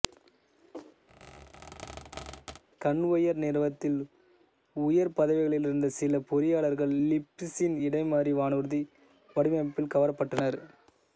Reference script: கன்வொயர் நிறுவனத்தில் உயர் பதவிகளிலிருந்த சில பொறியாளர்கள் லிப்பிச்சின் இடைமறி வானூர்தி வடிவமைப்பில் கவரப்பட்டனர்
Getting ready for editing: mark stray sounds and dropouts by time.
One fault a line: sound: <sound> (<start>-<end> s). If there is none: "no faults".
sound: squeak (1.1-2.6 s)